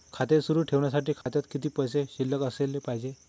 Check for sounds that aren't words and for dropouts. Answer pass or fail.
fail